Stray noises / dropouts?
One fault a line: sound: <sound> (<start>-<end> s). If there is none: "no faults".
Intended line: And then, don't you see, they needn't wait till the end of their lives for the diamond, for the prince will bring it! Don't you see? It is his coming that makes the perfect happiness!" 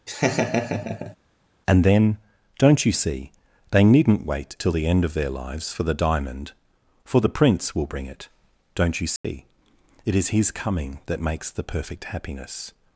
sound: laugh (0.1-1.2 s)
sound: dropout (9.2-9.2 s)